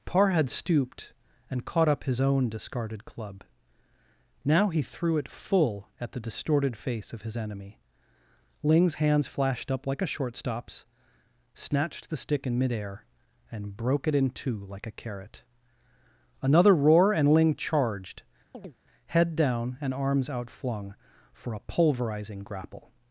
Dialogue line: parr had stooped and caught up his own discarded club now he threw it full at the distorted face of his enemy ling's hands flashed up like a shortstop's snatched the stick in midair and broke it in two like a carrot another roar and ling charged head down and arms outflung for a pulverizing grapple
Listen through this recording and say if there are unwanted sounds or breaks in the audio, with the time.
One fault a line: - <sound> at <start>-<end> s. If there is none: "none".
- chirp at 18.5-18.8 s